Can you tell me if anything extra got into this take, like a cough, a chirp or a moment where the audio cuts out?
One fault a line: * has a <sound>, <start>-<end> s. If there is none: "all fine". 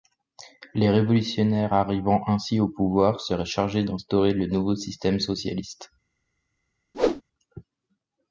* has a whoosh, 6.9-7.2 s